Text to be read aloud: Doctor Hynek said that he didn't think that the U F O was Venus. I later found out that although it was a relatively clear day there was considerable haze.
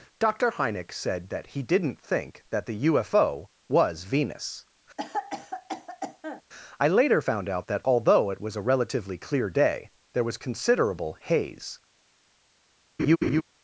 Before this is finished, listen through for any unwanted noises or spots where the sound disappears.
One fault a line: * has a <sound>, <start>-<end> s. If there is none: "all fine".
* has a cough, 5.0-6.4 s
* has a laugh, 13.0-13.4 s